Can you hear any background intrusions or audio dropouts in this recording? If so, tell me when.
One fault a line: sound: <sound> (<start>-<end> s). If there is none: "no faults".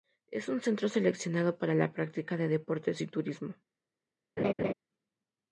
sound: laugh (4.4-4.7 s)